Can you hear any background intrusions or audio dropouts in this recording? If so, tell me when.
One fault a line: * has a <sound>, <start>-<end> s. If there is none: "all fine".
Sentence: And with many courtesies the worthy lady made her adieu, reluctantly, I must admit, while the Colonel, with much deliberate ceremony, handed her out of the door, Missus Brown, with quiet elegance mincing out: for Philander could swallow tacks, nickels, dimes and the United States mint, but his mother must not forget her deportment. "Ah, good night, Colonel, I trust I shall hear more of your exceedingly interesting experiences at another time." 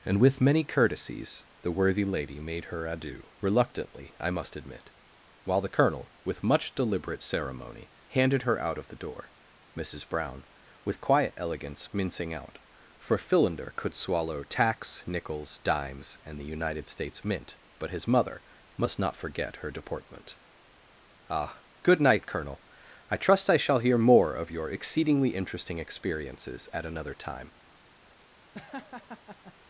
* has a laugh, 28.5-29.5 s